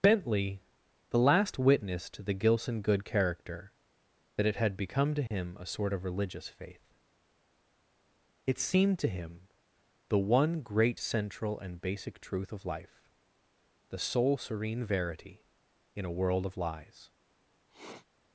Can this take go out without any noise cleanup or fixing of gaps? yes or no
no